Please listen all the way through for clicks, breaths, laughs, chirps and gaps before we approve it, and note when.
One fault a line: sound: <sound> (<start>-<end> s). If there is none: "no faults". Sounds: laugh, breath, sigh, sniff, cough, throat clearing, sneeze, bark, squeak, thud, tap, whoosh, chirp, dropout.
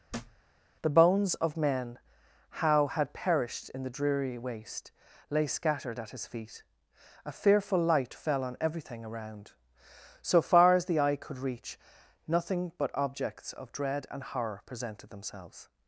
sound: thud (0.1-0.4 s)